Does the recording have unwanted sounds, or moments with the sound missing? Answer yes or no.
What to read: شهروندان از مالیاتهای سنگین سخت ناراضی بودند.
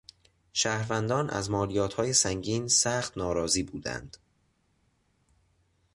no